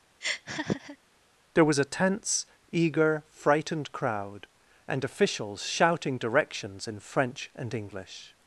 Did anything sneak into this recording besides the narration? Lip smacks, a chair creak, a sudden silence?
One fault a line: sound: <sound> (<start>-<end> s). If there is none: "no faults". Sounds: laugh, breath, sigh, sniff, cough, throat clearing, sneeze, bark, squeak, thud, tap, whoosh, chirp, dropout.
sound: laugh (0.2-1.0 s)